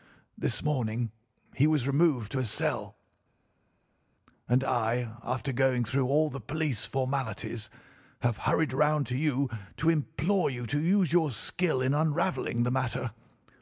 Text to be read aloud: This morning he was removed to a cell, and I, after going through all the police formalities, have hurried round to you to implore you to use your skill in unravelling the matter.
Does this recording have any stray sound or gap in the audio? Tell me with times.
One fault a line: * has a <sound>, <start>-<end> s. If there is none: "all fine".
all fine